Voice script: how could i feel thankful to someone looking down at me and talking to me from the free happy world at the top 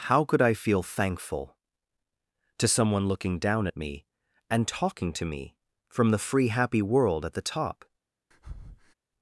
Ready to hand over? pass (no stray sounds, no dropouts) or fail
fail